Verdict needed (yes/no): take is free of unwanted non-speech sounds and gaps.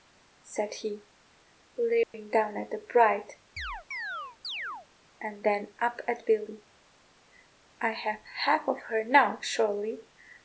no